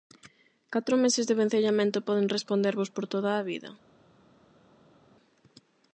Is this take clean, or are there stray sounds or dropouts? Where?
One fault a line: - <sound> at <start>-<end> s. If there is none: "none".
none